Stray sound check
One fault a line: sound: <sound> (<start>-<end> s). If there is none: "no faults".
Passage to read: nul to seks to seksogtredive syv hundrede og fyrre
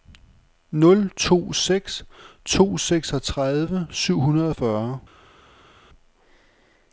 no faults